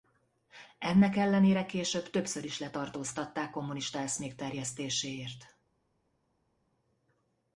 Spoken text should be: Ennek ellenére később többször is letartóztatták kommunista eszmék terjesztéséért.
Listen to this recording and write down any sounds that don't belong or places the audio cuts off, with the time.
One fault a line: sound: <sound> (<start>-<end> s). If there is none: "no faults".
no faults